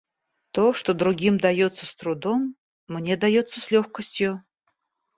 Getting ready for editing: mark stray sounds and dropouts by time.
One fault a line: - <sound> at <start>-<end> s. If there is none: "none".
none